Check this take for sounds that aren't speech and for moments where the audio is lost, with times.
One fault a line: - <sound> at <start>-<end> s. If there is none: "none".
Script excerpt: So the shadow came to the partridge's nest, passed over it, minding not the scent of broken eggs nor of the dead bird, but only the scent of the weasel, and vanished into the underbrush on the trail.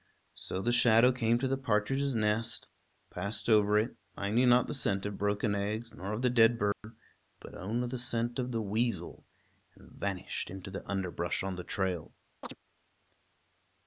- dropout at 6.7-6.8 s
- chirp at 12.4-12.6 s